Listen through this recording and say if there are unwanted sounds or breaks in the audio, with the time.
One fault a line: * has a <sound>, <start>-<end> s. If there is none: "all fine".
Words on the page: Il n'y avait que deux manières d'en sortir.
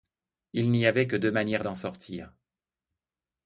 all fine